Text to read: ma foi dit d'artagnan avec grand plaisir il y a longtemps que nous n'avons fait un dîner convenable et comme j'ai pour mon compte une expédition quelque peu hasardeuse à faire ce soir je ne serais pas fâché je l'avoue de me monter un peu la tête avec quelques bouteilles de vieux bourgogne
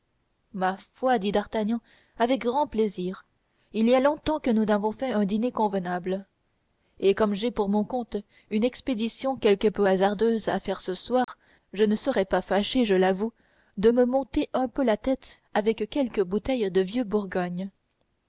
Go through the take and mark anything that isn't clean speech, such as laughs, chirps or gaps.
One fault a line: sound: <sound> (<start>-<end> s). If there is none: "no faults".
sound: dropout (11.2-11.3 s)